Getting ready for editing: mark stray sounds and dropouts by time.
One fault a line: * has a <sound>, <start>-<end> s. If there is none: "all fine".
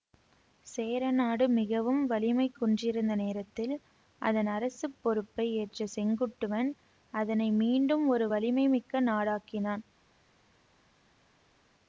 all fine